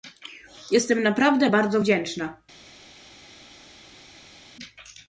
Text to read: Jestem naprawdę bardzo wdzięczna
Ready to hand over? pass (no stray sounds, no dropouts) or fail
pass